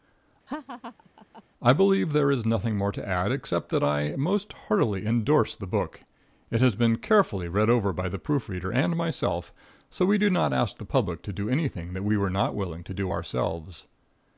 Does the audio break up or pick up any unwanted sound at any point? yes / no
yes